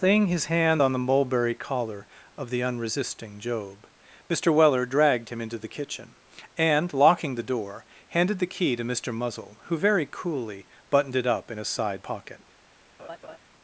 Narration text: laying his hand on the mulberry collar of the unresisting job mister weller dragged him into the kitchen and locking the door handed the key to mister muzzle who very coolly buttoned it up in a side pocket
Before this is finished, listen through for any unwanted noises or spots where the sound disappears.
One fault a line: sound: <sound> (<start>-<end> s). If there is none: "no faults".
sound: laugh (13.0-13.4 s)